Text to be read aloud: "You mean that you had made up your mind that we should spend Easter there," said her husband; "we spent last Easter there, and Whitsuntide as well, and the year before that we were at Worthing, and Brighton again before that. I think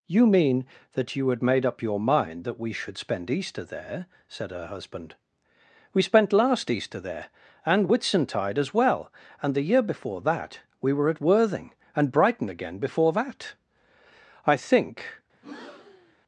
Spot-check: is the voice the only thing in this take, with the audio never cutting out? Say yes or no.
no